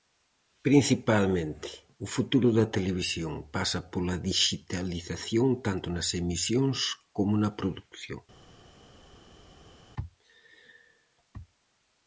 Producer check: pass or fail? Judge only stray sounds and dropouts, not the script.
pass